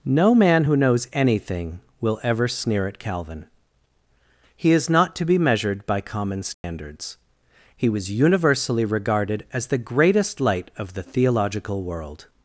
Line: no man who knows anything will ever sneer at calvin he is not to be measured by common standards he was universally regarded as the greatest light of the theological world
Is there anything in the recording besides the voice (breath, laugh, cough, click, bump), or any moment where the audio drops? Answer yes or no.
yes